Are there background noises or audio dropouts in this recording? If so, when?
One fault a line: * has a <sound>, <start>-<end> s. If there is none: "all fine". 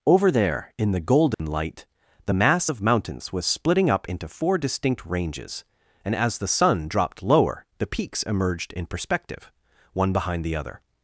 * has a dropout, 1.3-1.4 s